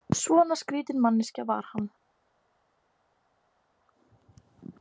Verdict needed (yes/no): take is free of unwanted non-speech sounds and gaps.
yes